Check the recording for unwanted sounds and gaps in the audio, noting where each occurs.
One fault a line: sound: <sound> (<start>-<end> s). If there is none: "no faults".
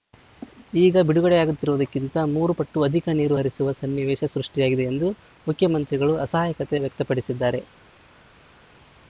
no faults